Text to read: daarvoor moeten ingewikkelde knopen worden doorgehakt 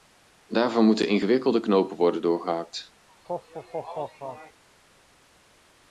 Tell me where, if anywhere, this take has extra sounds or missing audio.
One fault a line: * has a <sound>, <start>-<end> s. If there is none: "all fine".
* has a laugh, 3.1-4.6 s